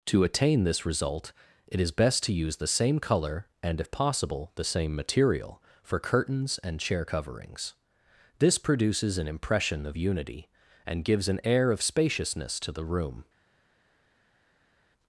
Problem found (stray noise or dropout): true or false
false